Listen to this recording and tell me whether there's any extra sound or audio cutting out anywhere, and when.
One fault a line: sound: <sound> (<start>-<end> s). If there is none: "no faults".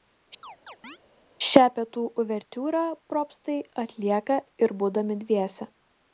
sound: chirp (0.4-1.0 s)